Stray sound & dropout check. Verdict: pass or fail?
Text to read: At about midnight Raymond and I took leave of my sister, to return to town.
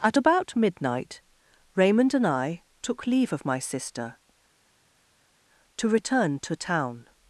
pass